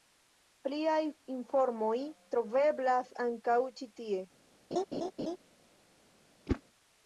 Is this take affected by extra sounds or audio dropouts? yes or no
yes